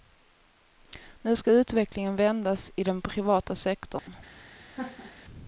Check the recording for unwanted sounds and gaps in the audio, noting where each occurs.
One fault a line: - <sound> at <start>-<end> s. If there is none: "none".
- dropout at 4.0-4.1 s
- laugh at 4.7-5.2 s